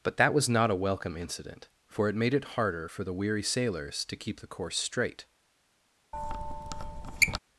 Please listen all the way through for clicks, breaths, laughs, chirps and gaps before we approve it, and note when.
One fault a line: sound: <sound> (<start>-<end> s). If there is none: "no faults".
sound: squeak (6.1-7.4 s)